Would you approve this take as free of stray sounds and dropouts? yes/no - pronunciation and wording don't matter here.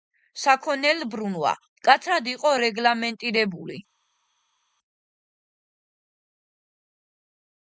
yes